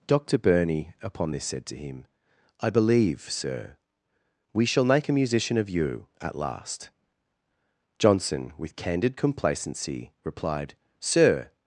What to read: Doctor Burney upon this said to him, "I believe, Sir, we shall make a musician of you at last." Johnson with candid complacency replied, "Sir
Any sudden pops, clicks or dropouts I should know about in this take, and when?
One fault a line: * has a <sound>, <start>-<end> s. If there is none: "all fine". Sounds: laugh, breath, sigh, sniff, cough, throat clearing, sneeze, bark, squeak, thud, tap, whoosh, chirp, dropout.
all fine